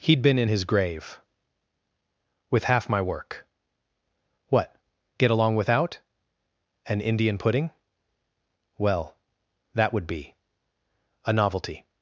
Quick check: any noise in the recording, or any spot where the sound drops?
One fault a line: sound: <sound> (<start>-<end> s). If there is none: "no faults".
no faults